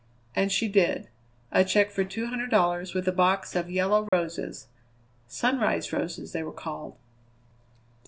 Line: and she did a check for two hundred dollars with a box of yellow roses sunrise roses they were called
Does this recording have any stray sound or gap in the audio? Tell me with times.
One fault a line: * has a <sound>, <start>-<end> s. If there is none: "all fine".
* has a dropout, 4.1-4.1 s